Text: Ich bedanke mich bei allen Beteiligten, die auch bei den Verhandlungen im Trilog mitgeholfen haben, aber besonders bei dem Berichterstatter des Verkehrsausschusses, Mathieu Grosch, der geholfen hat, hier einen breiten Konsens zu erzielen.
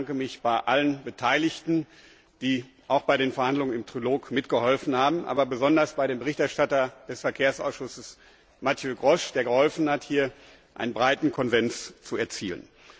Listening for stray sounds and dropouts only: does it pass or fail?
pass